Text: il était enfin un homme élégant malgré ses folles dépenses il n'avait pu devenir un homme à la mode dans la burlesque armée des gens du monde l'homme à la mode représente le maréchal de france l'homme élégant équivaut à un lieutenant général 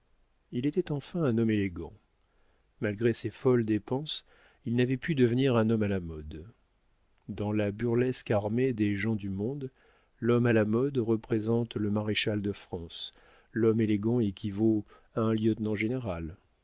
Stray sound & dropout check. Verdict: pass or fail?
pass